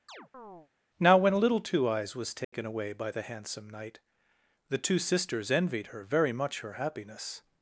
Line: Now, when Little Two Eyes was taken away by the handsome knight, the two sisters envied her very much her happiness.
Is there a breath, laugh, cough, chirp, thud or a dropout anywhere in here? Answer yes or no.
yes